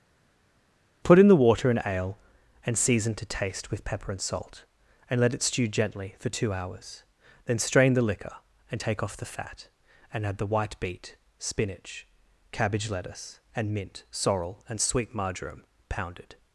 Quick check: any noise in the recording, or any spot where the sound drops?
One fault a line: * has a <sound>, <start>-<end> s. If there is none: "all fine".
all fine